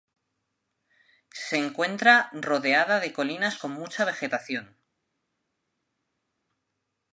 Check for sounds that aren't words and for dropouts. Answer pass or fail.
pass